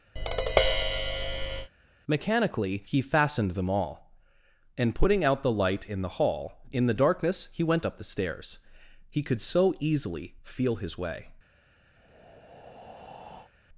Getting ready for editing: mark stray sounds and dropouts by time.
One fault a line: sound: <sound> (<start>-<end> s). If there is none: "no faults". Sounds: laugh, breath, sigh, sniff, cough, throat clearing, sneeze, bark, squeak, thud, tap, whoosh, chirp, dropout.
sound: tap (0.2-1.7 s)
sound: breath (12.0-13.5 s)